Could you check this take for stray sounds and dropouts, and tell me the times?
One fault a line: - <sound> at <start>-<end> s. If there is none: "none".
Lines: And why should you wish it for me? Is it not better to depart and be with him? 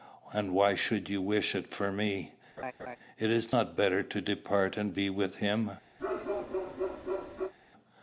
- laugh at 2.6-3.0 s
- bark at 6.0-7.5 s